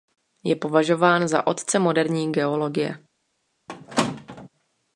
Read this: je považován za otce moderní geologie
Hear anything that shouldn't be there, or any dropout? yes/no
yes